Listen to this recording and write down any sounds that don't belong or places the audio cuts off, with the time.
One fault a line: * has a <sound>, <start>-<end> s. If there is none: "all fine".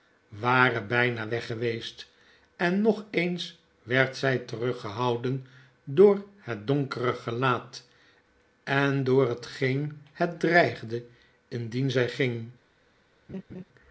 * has a laugh, 13.3-13.6 s